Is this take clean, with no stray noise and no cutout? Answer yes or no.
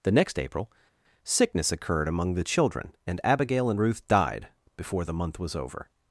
yes